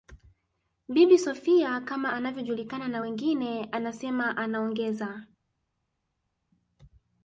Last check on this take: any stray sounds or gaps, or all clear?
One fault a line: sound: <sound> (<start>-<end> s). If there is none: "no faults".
no faults